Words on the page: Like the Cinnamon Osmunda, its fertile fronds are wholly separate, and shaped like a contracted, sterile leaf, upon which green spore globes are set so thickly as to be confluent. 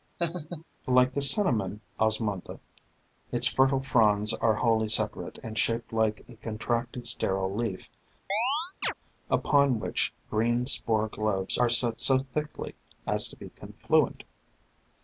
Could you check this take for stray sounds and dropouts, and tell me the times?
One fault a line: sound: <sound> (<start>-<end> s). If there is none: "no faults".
sound: laugh (0.2-0.6 s)
sound: chirp (8.3-8.9 s)